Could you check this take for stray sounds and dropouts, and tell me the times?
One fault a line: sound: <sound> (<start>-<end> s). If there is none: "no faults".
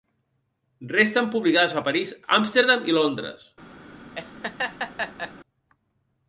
sound: laugh (4.1-5.3 s)